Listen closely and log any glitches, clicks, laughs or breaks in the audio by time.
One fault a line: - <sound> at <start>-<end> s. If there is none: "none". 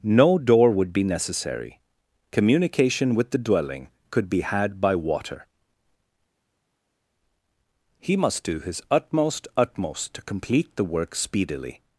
none